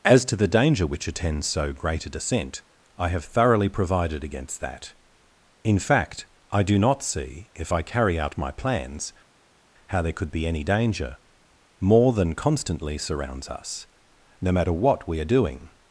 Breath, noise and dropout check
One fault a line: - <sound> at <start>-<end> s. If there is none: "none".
none